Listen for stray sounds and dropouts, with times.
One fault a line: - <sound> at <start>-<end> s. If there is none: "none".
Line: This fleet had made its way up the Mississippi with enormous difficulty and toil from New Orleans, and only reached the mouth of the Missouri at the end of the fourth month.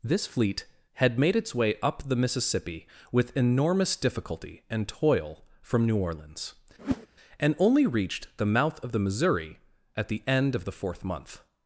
- whoosh at 6.8-7.1 s